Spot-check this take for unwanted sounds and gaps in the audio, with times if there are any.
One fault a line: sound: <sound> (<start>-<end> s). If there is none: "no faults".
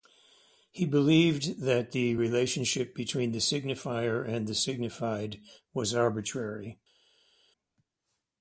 no faults